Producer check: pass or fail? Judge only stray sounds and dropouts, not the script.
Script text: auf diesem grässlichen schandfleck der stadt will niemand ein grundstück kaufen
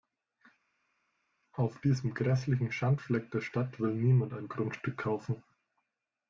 pass